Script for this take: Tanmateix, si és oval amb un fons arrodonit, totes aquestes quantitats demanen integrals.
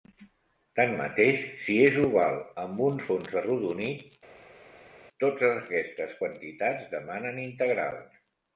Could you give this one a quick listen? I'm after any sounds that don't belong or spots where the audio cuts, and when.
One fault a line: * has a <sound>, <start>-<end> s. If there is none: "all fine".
all fine